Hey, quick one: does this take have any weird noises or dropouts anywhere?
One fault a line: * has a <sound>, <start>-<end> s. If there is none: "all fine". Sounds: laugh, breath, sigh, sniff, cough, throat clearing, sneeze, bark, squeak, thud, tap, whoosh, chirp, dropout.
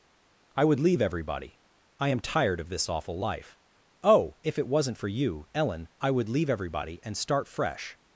all fine